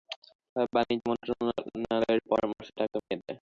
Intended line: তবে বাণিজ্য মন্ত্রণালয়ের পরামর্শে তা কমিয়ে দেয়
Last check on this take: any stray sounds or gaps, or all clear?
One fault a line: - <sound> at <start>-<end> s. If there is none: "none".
- dropout at 3.0-3.1 s